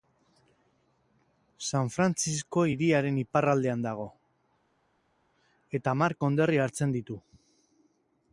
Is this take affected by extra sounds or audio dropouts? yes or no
no